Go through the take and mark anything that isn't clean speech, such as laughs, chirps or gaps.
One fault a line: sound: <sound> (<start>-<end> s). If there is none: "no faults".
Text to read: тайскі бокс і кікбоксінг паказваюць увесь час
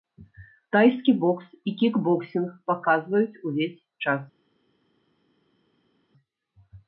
no faults